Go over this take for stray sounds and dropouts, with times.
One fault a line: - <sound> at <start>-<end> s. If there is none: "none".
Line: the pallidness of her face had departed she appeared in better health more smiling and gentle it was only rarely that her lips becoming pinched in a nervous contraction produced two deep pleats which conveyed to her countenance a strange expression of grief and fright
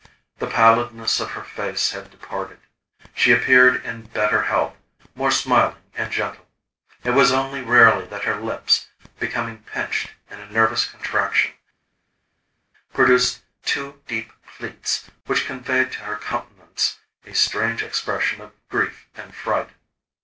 none